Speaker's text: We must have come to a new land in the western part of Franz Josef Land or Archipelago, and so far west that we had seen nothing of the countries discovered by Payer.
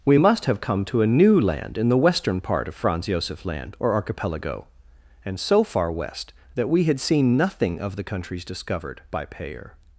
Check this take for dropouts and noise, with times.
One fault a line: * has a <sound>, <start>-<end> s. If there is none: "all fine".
all fine